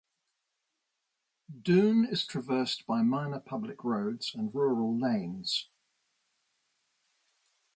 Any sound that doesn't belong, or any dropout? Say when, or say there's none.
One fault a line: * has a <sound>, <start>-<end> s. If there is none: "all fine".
all fine